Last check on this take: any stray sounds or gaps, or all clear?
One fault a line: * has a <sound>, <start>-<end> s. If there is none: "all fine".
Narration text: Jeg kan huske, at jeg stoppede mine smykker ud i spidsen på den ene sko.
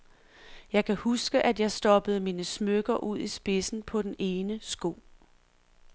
all fine